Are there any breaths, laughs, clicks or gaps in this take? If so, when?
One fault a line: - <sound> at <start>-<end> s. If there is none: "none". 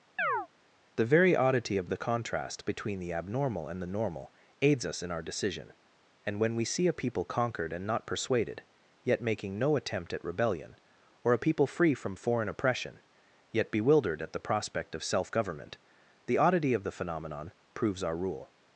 - chirp at 0.2-0.5 s